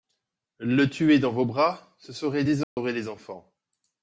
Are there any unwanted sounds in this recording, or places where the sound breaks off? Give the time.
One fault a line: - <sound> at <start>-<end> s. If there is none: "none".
- dropout at 2.6-2.8 s